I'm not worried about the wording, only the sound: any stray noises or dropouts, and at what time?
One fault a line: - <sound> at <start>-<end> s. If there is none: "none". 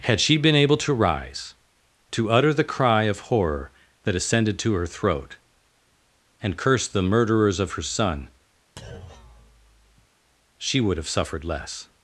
- thud at 8.8-10.1 s